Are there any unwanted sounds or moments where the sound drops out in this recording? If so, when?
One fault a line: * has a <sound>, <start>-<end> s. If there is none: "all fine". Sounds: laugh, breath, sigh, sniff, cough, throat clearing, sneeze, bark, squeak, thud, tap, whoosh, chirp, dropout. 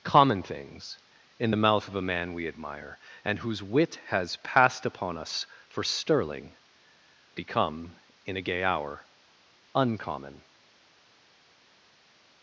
all fine